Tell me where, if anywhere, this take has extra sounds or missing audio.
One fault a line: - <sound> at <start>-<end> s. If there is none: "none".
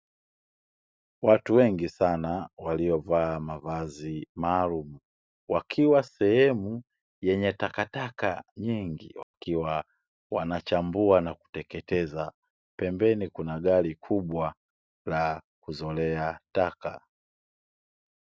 - dropout at 9.2-9.3 s